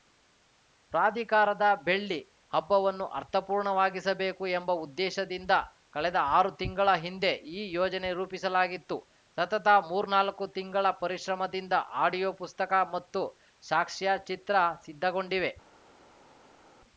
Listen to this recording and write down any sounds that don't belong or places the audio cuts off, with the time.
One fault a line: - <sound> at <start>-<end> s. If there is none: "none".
none